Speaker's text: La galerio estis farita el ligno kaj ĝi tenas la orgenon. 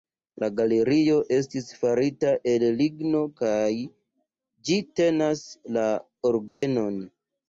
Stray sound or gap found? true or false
true